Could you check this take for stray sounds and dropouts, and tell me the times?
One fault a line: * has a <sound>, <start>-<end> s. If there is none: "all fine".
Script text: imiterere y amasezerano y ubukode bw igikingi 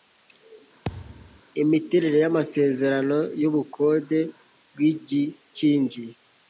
* has a thud, 0.8-1.4 s